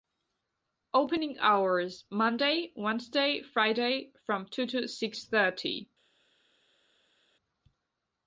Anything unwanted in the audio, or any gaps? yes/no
no